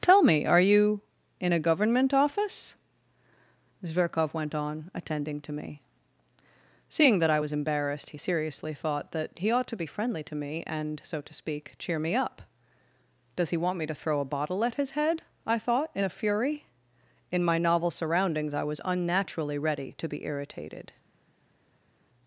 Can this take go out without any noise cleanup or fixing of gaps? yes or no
yes